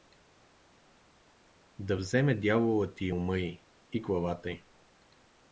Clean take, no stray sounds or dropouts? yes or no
yes